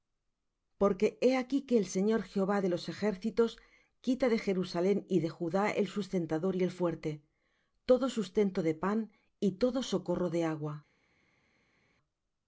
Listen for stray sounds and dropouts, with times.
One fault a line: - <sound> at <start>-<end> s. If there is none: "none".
none